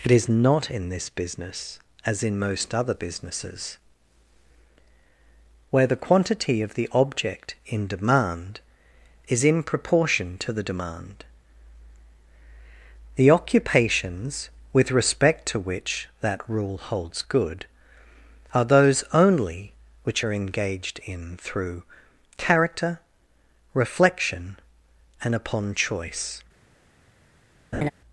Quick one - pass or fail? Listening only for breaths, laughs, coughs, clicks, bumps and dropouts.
fail